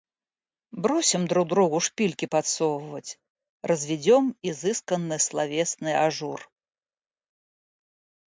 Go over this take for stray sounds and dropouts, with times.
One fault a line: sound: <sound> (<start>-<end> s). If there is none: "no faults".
no faults